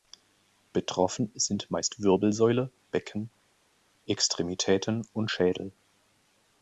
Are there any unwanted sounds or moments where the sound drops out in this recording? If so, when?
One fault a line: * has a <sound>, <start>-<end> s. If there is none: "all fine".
all fine